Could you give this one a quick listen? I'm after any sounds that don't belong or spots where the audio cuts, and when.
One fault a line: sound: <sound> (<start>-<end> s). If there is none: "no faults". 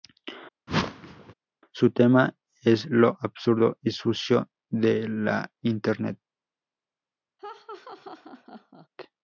sound: whoosh (0.7-1.3 s)
sound: laugh (7.4-8.9 s)